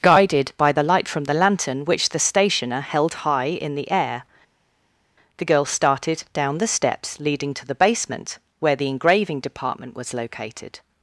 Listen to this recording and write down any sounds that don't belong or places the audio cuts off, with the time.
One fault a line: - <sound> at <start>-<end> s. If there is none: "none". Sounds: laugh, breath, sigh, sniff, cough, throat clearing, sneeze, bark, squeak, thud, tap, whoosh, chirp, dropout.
none